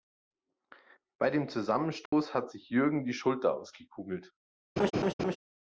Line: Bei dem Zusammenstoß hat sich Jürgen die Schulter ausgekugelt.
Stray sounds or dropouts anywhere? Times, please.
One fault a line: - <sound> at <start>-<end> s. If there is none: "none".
- dropout at 2.1-2.1 s
- laugh at 4.8-5.4 s